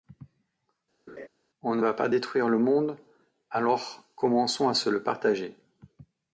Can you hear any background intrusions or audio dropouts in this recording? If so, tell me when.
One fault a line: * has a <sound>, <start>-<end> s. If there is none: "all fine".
* has a laugh, 1.1-1.3 s